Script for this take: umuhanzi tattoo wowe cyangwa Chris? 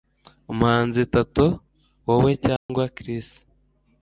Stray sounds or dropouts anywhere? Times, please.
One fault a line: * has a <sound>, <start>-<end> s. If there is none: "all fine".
* has a dropout, 2.6-2.7 s